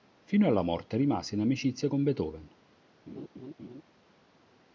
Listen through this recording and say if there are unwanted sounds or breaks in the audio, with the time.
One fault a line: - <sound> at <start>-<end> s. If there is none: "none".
- laugh at 3.1-3.8 s